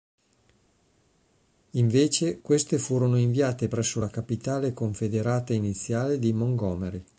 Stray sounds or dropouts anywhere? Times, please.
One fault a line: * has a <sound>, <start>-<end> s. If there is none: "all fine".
all fine